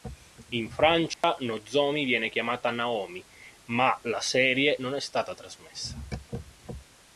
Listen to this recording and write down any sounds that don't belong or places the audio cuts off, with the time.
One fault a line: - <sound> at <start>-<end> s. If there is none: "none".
- dropout at 1.1-1.2 s